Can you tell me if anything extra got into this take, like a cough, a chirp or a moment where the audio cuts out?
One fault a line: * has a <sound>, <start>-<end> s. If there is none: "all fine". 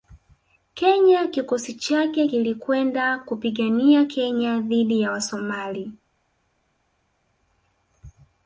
all fine